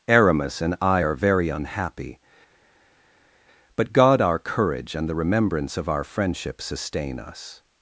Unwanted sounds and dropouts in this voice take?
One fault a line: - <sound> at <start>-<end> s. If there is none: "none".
none